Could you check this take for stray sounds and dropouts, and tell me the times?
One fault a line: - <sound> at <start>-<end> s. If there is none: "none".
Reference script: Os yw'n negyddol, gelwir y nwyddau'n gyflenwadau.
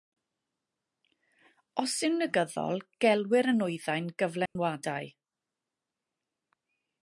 - dropout at 4.5-4.6 s